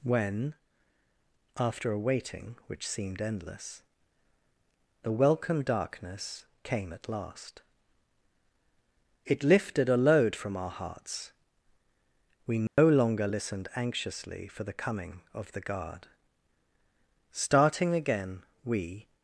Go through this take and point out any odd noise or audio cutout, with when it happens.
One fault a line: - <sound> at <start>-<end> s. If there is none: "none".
- dropout at 12.7-12.8 s